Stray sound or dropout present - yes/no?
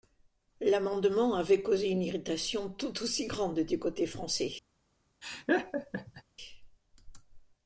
yes